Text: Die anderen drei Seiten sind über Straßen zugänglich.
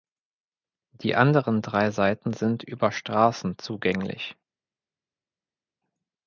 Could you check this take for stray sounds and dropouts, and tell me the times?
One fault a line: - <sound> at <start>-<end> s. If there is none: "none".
none